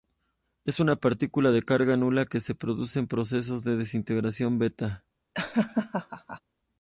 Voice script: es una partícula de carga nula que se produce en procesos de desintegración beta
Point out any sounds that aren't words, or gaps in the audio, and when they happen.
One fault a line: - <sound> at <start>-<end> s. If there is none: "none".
- laugh at 5.3-6.4 s